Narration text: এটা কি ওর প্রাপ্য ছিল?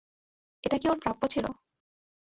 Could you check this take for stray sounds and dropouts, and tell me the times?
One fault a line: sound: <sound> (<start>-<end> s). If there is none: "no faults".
no faults